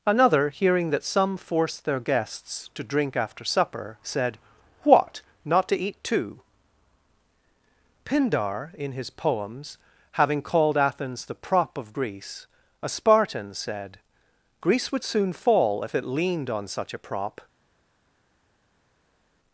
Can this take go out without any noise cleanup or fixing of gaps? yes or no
yes